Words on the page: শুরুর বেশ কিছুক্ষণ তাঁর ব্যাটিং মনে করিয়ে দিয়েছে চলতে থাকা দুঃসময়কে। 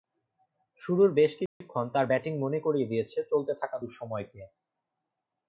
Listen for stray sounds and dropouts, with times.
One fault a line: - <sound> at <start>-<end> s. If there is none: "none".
- dropout at 1.5-1.6 s